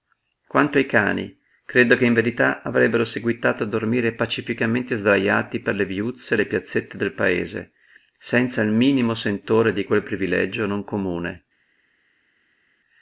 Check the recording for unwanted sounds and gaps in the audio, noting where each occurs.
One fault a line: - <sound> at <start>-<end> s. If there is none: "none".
none